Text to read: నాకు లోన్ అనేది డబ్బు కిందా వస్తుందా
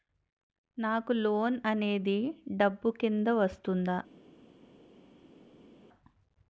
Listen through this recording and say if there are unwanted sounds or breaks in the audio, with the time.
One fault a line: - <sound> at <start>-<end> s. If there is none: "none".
none